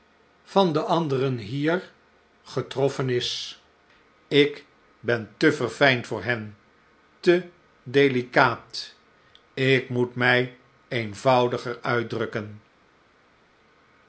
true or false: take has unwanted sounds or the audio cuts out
false